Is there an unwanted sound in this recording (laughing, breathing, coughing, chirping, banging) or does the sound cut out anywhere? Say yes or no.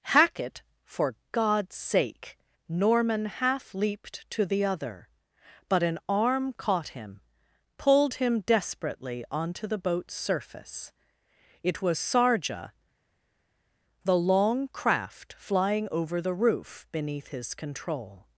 no